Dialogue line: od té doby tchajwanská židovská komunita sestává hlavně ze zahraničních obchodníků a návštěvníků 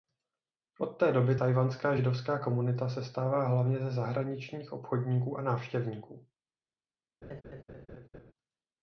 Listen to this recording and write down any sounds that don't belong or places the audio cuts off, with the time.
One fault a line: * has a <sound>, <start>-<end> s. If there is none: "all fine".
* has a laugh, 7.2-8.3 s